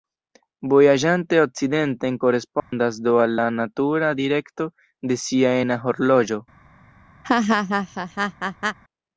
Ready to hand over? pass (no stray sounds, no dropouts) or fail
fail